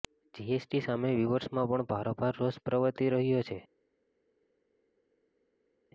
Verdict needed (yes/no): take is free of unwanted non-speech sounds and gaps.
yes